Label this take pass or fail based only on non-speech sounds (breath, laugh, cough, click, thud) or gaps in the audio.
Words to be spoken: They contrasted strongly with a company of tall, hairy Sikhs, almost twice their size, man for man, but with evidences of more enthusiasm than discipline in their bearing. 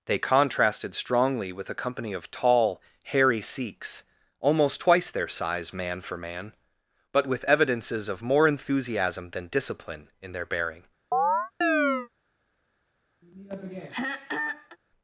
fail